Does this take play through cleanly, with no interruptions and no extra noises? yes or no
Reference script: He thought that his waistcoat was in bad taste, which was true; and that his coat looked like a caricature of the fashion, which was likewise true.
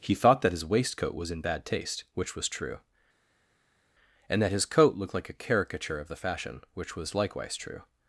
yes